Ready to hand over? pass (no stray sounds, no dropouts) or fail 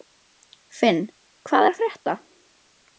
pass